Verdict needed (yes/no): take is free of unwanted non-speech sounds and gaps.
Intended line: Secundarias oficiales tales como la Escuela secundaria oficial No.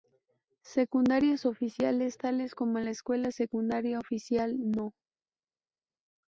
yes